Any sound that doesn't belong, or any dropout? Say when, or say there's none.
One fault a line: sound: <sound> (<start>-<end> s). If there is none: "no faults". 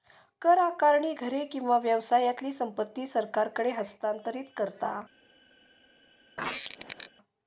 sound: squeak (6.4-7.1 s)